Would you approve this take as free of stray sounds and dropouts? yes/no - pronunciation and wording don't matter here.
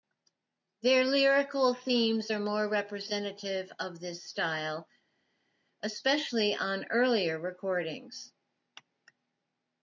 yes